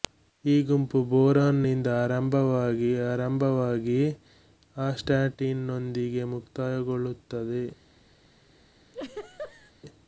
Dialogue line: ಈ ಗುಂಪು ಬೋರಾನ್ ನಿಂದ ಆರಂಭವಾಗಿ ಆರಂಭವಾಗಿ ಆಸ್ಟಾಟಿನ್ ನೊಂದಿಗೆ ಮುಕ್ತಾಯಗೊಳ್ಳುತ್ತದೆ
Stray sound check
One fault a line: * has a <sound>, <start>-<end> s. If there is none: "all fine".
* has a laugh, 8.9-9.7 s